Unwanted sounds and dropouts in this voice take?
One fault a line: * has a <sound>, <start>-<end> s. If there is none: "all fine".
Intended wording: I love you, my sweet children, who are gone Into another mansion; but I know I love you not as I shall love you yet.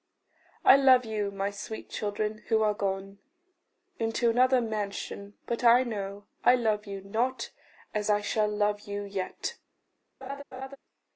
* has a laugh, 10.2-10.8 s